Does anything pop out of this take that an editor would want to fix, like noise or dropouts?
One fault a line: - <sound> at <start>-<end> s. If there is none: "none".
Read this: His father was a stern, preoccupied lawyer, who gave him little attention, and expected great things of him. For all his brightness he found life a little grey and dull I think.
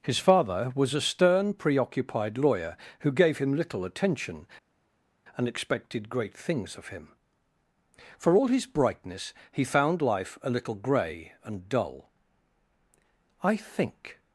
none